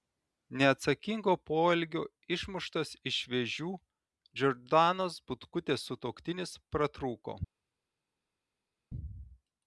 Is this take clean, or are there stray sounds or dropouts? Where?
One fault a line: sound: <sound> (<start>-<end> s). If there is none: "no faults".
no faults